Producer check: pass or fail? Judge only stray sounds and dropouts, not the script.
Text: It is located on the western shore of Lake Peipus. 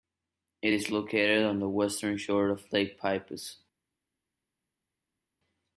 pass